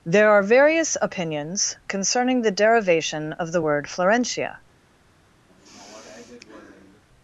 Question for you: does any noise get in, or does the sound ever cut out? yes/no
yes